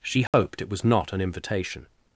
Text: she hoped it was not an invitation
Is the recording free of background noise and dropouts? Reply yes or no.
no